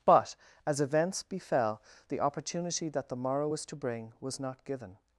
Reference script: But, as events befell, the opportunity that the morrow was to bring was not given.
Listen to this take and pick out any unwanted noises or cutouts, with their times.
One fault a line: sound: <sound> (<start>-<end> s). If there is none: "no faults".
no faults